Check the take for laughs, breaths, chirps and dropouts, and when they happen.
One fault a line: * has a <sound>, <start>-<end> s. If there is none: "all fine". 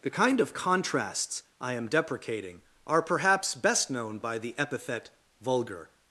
all fine